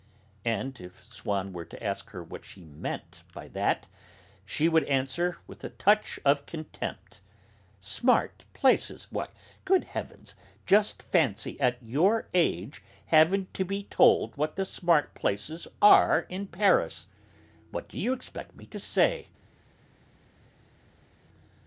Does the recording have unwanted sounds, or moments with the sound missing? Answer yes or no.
no